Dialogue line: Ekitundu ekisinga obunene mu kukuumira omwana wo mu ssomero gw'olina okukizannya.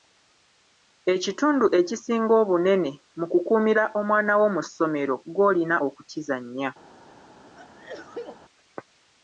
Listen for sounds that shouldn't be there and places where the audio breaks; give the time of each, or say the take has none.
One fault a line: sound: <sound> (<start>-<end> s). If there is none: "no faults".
sound: sneeze (7.6-8.4 s)